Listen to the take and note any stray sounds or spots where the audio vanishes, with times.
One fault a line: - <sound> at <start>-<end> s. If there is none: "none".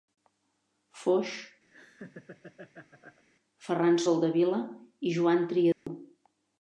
- laugh at 1.7-3.2 s
- dropout at 5.7-5.9 s